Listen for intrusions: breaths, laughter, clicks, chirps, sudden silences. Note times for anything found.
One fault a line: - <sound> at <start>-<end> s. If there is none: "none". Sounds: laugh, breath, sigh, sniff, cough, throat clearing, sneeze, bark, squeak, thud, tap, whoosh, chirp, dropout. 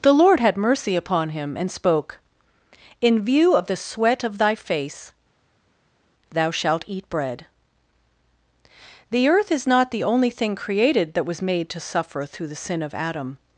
none